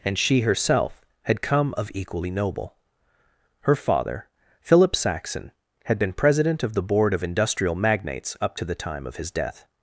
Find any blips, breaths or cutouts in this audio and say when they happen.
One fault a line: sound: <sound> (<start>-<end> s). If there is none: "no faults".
no faults